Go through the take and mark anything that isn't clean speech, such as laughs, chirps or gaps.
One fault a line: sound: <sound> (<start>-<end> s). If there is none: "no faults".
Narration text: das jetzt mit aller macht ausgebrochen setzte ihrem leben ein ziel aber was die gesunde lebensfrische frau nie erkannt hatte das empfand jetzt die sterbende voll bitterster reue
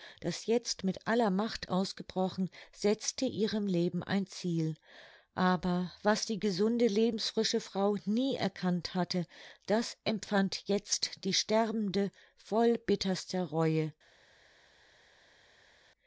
no faults